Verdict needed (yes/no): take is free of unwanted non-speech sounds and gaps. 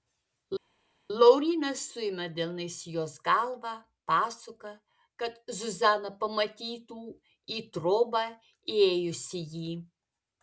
yes